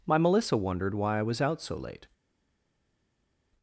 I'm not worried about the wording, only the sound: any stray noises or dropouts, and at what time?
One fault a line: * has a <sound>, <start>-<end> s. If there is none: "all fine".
all fine